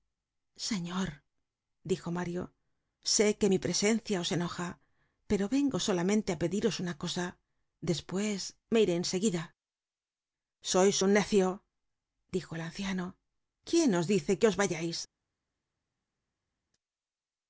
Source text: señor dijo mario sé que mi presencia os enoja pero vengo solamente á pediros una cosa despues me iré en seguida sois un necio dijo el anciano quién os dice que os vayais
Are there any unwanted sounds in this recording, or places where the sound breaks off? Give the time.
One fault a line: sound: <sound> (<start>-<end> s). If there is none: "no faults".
no faults